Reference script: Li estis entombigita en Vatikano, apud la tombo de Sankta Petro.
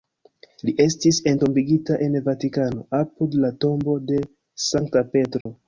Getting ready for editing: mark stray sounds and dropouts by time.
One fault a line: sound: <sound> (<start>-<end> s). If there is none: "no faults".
sound: dropout (5.4-5.5 s)